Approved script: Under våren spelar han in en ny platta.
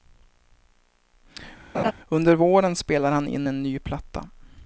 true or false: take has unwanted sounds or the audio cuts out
true